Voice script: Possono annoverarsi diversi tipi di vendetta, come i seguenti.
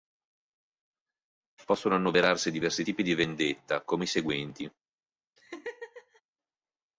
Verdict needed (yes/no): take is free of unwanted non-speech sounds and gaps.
no